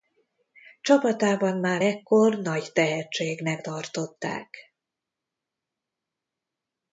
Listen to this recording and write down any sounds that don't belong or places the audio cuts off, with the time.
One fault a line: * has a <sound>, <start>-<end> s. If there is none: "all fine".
all fine